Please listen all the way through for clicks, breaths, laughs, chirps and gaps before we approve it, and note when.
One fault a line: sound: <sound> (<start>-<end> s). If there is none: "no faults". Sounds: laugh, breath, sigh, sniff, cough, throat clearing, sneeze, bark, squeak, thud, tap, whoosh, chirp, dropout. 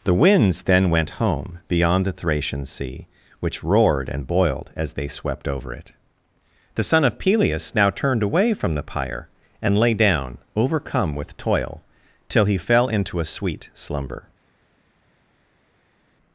no faults